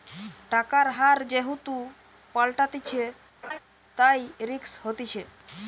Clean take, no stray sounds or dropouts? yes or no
no